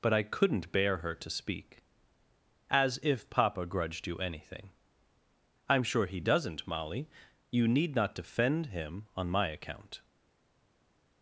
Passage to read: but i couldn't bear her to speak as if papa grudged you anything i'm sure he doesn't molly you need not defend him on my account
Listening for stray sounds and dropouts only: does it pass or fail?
pass